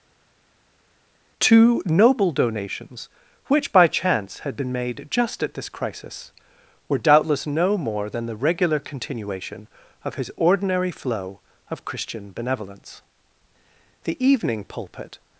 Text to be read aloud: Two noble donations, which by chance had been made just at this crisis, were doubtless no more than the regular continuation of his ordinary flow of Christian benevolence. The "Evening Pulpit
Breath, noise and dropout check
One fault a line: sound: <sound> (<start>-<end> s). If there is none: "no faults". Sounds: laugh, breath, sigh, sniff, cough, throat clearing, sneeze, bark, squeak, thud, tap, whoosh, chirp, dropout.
no faults